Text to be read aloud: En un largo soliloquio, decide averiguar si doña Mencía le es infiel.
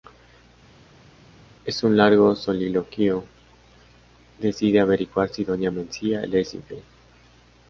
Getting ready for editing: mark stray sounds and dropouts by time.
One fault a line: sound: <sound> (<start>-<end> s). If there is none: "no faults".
no faults